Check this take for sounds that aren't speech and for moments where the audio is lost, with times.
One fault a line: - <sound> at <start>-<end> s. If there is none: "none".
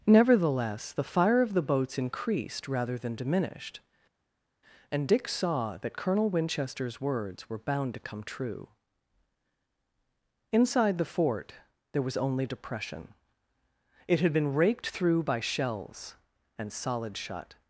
none